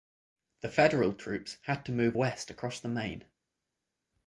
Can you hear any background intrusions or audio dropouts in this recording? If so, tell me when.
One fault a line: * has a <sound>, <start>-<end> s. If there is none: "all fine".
all fine